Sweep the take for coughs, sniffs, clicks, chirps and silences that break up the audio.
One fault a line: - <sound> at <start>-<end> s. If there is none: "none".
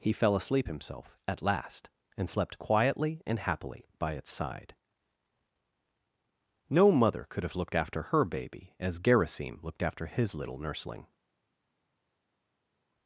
none